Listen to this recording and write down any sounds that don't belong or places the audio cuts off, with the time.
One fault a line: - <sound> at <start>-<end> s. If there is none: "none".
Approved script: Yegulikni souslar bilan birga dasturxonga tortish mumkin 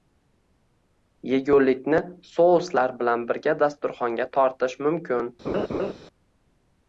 - laugh at 5.4-5.9 s